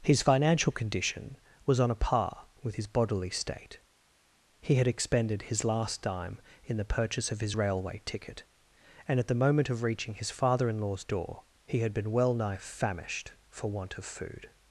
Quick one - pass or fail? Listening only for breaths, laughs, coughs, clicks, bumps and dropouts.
pass